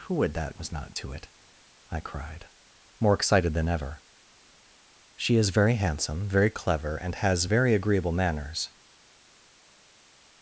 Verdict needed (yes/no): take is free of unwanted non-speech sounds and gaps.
yes